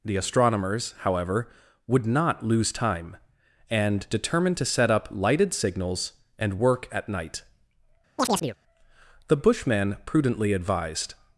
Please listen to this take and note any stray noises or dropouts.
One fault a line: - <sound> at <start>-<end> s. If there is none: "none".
- chirp at 8.2-8.6 s